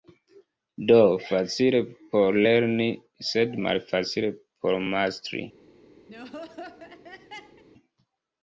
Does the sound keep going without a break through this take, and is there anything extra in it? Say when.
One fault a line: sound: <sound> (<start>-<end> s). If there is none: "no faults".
sound: laugh (6.1-7.6 s)